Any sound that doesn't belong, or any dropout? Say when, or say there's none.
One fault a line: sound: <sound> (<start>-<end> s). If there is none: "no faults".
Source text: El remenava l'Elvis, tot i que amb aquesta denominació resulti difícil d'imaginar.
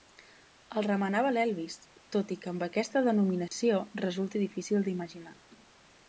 sound: dropout (3.5-3.5 s)